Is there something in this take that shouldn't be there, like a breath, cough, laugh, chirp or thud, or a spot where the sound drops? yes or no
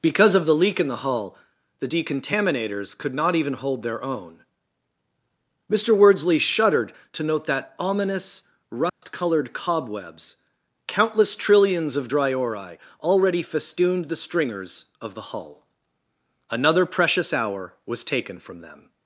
yes